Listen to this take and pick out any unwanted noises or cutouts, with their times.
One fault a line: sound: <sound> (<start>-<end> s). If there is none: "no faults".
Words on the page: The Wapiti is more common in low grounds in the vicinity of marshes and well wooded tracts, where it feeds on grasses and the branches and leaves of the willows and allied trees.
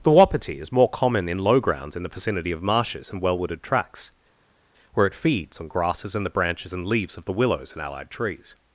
no faults